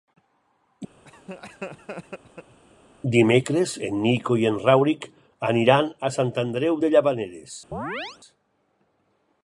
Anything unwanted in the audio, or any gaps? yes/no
yes